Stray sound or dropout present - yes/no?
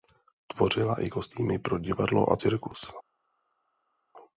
no